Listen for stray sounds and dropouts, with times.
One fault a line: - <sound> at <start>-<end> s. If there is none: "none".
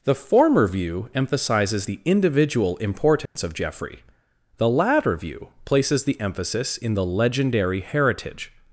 - dropout at 3.3-3.4 s